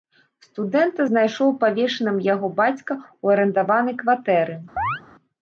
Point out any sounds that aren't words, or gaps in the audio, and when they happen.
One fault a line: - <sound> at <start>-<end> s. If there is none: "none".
- chirp at 4.8-5.0 s